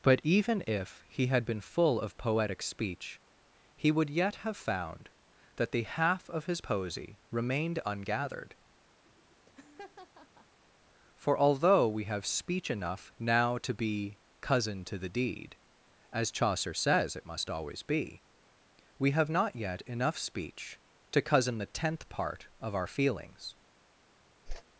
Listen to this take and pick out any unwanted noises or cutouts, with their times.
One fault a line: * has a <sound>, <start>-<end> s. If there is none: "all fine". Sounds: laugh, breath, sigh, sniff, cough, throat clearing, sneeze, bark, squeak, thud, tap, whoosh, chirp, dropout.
* has a laugh, 9.1-10.6 s
* has a whoosh, 24.5-24.6 s